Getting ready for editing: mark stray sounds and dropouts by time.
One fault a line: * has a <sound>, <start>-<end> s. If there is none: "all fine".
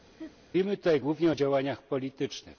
* has a laugh, 0.2-0.3 s